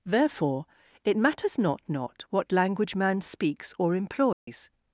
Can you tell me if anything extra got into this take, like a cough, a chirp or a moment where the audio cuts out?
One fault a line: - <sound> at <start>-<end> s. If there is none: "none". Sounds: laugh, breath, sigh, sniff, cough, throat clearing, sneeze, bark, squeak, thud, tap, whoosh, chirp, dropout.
- dropout at 4.3-4.5 s